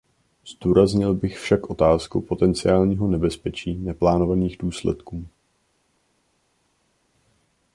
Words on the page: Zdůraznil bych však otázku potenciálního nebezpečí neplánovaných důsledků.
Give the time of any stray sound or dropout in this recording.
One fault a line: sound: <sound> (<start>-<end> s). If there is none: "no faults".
no faults